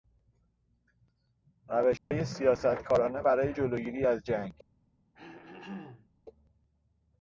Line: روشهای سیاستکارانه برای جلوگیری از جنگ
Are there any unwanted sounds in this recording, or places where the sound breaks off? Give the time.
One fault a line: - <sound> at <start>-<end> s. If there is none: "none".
- dropout at 2.0-2.1 s
- throat clearing at 5.2-6.1 s